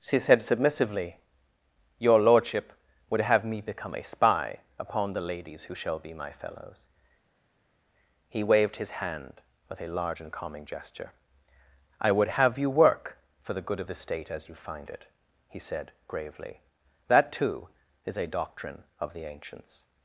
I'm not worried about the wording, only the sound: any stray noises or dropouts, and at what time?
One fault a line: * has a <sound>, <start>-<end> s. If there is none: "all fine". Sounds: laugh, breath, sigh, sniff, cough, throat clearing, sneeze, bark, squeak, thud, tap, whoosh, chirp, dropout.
all fine